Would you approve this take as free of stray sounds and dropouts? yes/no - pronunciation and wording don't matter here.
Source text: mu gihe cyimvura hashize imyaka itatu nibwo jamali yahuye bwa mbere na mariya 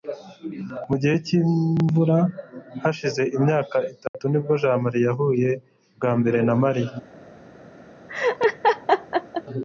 no